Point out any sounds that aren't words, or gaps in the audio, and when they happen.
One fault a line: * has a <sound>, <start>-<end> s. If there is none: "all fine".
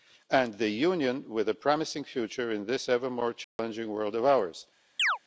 * has a dropout, 3.4-3.6 s
* has a chirp, 5.0-5.2 s